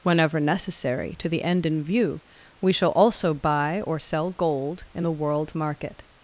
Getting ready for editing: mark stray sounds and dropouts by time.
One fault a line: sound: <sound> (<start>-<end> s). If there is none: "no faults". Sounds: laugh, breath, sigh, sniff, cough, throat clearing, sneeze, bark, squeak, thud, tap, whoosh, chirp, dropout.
no faults